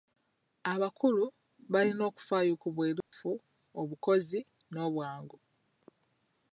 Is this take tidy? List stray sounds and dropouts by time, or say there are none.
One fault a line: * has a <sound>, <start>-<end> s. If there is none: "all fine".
* has a dropout, 3.0-3.1 s